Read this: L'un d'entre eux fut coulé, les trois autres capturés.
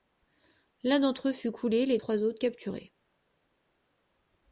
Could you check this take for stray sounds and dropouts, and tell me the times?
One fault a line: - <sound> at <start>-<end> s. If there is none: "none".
none